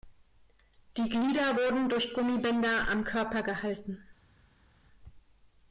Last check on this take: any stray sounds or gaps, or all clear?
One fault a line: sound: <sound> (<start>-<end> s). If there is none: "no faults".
no faults